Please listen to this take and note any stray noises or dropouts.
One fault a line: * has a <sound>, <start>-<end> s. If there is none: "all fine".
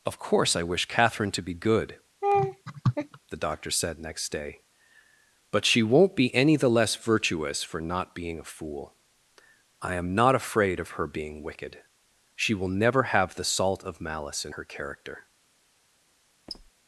* has a laugh, 2.2-3.2 s
* has a squeak, 16.5-16.7 s